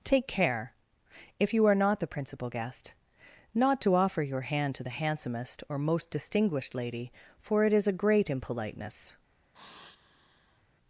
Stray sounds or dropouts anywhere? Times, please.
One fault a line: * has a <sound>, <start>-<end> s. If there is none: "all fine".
* has a sigh, 9.5-10.6 s